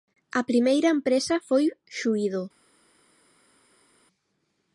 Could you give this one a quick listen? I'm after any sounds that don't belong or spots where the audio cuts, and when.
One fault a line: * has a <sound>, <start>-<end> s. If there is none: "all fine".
all fine